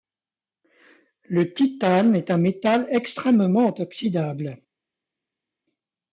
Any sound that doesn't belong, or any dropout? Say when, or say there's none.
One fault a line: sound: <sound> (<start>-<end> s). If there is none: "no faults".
no faults